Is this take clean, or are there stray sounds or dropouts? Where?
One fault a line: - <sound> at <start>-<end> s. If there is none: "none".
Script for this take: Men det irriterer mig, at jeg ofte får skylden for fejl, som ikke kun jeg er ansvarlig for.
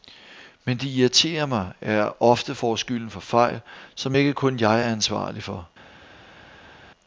none